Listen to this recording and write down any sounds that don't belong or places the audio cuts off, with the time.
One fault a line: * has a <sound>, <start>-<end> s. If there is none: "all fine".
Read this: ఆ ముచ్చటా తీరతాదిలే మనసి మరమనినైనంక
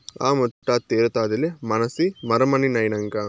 * has a dropout, 0.5-0.6 s